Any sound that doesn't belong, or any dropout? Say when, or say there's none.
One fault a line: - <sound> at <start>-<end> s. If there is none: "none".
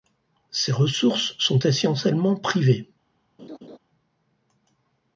- laugh at 3.4-3.8 s